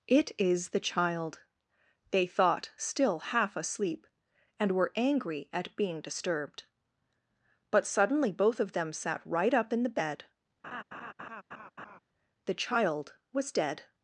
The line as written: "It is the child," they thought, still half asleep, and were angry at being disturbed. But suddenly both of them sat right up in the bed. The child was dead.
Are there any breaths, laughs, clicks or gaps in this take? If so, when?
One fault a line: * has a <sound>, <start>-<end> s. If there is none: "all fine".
* has a laugh, 10.6-12.0 s